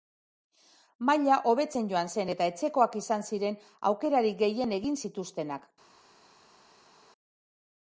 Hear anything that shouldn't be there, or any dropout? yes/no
no